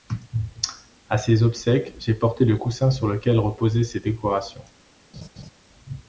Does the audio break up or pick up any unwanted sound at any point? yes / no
yes